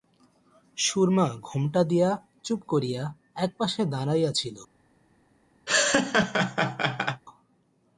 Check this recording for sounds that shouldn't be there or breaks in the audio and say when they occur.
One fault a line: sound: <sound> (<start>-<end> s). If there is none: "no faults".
sound: laugh (5.7-7.2 s)